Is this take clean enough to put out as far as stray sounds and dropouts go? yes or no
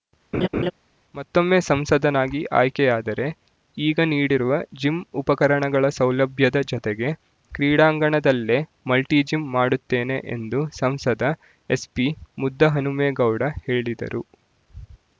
no